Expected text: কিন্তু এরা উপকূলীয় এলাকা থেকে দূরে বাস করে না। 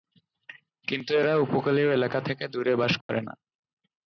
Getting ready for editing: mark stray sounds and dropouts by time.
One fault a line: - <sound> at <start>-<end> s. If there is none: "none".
- dropout at 3.0-3.1 s